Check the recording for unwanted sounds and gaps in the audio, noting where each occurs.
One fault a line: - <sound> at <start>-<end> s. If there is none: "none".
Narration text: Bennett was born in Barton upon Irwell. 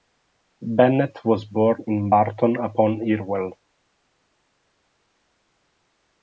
none